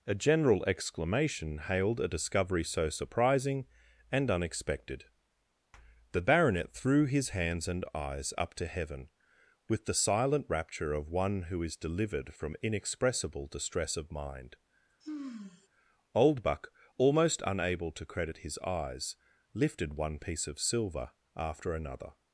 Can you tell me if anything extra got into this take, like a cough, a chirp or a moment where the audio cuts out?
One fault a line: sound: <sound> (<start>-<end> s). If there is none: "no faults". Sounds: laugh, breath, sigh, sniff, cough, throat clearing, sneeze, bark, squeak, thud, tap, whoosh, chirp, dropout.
sound: sigh (15.0-15.7 s)